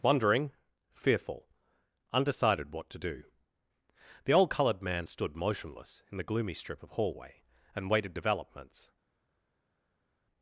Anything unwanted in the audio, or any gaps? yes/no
no